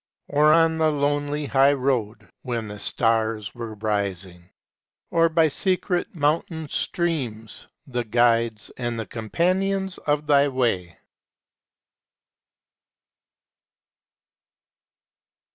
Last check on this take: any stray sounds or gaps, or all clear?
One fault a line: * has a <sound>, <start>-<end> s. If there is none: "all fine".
all fine